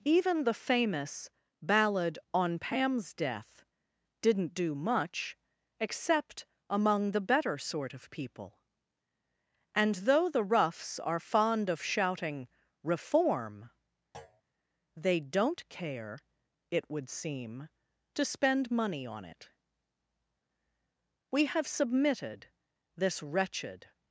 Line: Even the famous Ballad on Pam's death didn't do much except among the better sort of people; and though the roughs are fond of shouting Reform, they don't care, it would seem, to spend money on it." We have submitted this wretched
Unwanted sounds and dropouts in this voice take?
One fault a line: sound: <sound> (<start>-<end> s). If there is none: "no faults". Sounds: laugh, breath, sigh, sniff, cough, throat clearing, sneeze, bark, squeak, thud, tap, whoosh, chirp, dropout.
sound: thud (14.1-14.4 s)